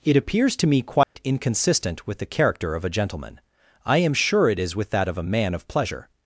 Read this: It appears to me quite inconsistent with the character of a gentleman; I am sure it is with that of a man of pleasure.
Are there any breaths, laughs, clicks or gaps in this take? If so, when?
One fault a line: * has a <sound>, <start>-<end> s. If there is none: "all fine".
* has a dropout, 1.0-1.2 s